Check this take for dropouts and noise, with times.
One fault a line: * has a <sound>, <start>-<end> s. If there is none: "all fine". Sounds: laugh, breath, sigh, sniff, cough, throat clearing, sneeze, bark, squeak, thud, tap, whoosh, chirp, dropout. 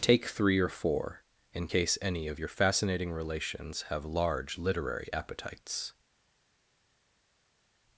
all fine